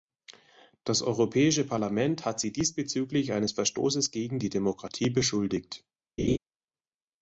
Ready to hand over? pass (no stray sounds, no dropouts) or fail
fail